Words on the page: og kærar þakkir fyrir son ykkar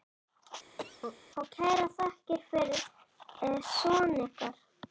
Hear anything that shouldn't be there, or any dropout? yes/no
yes